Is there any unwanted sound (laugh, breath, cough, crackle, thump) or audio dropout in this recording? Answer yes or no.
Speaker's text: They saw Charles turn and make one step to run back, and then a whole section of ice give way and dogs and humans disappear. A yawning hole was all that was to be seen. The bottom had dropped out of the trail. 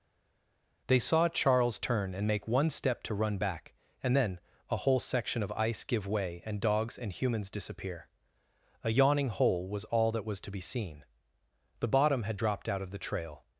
no